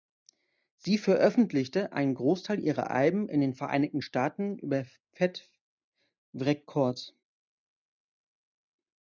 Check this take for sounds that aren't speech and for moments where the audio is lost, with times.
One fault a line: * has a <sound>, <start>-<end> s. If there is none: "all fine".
all fine